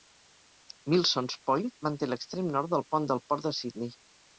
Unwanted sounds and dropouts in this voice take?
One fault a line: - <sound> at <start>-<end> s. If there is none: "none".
none